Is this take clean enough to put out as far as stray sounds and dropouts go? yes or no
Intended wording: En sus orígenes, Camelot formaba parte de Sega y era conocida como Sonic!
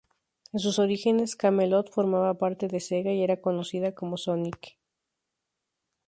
yes